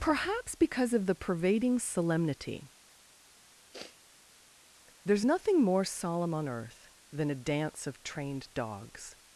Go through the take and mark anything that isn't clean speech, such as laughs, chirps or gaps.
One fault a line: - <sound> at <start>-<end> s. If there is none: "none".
- sniff at 3.7-4.0 s